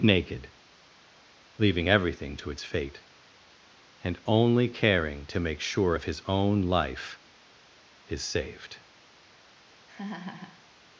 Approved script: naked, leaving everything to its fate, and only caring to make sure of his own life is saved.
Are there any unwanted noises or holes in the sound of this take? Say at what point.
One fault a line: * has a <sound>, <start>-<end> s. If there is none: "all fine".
* has a laugh, 9.9-10.7 s